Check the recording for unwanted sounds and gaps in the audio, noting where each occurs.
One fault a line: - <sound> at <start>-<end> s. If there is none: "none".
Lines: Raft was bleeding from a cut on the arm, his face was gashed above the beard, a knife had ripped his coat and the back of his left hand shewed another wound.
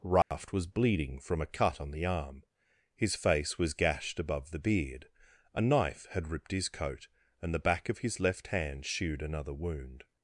- dropout at 0.2-0.3 s